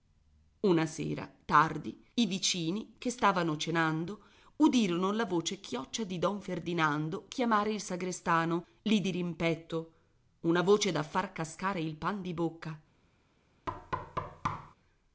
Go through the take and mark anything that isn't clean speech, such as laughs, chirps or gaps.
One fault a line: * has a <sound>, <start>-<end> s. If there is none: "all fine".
* has a thud, 13.7-14.7 s